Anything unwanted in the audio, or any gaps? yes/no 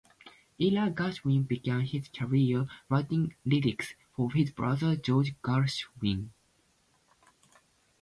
no